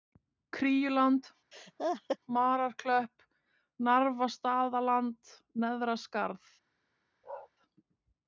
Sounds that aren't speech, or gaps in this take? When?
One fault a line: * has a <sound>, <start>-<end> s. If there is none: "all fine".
* has a laugh, 1.5-2.2 s
* has a bark, 7.2-7.5 s